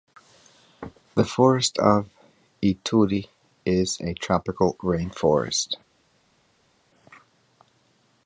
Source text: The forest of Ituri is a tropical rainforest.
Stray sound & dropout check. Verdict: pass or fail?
pass